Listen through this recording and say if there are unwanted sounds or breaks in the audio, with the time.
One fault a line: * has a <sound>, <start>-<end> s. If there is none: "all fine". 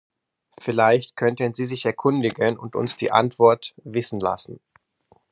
all fine